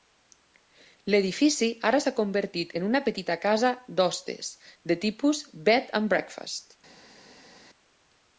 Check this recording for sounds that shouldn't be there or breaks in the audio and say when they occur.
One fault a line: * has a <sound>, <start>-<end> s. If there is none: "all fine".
all fine